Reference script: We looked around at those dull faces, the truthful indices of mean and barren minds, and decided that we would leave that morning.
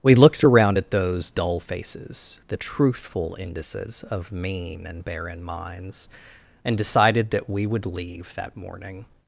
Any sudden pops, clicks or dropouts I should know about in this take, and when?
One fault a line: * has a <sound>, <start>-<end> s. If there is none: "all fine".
all fine